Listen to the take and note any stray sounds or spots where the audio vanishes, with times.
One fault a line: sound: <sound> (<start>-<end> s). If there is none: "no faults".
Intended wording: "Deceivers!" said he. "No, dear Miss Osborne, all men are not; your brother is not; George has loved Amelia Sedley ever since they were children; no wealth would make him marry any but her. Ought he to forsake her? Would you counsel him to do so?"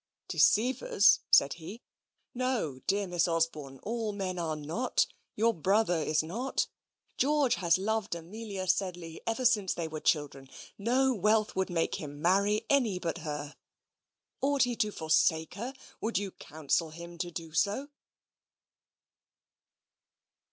no faults